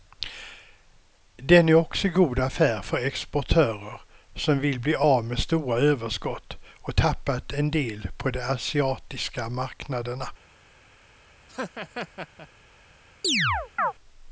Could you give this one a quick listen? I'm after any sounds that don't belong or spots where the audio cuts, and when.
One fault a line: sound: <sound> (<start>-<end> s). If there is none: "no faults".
sound: laugh (11.5-12.5 s)
sound: chirp (13.2-13.9 s)